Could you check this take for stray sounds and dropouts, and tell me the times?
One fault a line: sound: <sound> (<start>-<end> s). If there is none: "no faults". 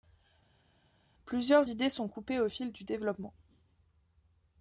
no faults